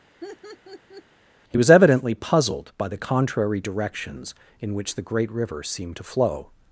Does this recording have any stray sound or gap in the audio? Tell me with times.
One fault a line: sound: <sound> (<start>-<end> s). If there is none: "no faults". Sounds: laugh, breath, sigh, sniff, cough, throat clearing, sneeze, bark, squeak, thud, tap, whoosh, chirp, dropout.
sound: laugh (0.2-1.0 s)